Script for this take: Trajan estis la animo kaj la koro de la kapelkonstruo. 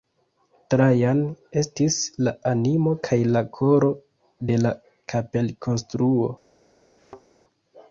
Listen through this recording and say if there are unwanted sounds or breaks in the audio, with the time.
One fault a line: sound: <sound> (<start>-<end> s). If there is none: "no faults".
sound: thud (7.0-7.2 s)